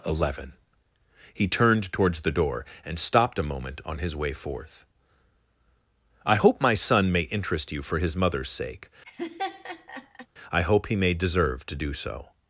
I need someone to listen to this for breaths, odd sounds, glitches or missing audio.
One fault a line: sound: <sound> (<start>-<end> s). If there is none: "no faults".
sound: laugh (9.0-10.3 s)